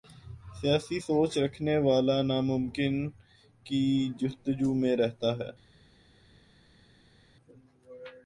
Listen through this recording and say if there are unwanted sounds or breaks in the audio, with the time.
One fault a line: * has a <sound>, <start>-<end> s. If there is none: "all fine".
all fine